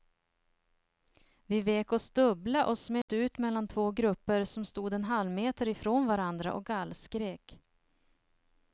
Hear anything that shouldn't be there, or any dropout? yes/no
yes